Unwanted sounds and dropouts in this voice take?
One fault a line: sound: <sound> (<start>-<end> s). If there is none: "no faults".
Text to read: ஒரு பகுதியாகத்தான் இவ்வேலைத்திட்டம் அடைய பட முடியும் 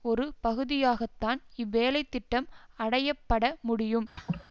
sound: laugh (4.2-4.5 s)